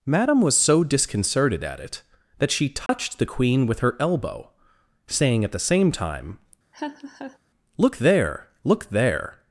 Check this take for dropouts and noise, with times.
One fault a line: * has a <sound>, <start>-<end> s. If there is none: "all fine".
* has a dropout, 2.9-2.9 s
* has a laugh, 6.7-7.4 s